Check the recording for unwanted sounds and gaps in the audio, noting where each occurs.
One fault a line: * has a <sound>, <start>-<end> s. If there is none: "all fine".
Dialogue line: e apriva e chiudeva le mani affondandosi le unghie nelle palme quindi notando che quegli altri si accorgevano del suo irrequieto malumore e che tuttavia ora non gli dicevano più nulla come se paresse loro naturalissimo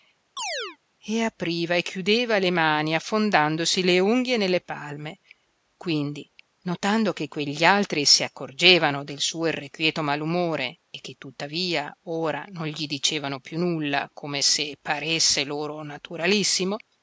* has a chirp, 0.4-0.8 s